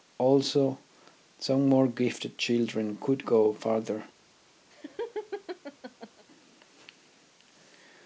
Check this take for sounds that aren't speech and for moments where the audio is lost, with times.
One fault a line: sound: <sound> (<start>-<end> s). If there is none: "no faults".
sound: laugh (4.7-6.2 s)